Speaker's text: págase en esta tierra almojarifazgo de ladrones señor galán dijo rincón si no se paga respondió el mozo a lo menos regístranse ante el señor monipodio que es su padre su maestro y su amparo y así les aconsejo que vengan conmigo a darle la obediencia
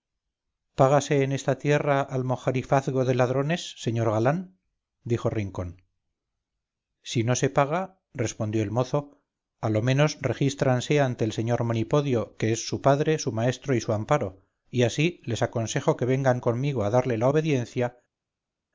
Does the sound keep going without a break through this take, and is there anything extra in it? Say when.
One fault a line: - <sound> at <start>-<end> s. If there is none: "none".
none